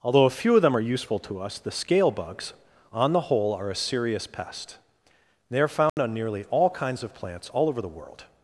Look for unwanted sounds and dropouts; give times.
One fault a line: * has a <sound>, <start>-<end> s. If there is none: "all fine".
* has a dropout, 5.9-6.0 s